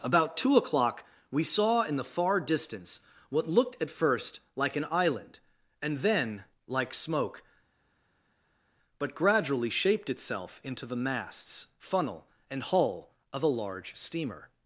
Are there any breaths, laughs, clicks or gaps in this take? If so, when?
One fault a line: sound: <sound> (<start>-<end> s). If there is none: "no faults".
no faults